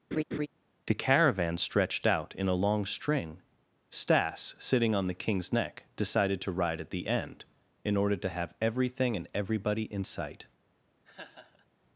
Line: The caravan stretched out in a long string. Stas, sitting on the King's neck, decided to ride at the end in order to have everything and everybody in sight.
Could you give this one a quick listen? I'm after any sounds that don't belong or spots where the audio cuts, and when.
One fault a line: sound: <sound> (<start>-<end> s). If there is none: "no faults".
sound: laugh (0.1-0.5 s)
sound: laugh (11.0-11.7 s)